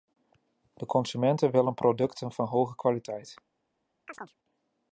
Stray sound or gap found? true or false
true